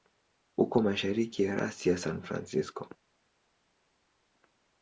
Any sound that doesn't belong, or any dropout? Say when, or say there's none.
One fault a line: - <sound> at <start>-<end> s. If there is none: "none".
none